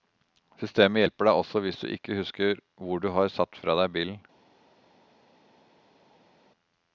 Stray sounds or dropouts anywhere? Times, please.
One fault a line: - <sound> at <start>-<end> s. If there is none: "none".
none